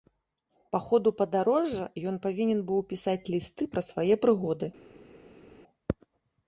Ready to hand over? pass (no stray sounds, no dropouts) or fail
pass